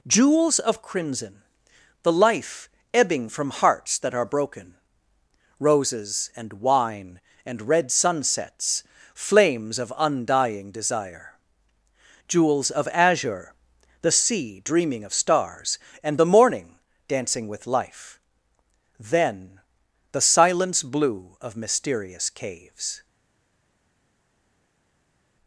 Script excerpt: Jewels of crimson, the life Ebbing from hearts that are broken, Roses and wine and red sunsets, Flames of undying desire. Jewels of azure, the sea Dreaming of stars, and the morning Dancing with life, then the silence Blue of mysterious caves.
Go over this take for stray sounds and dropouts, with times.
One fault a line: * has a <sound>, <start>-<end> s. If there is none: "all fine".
all fine